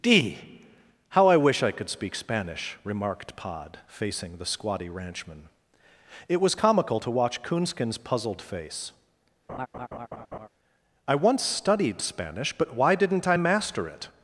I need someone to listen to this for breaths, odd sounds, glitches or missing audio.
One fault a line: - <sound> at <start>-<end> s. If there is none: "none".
- laugh at 9.5-10.5 s